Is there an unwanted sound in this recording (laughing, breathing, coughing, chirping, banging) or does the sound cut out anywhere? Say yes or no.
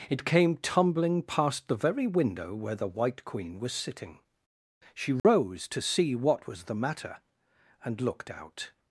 yes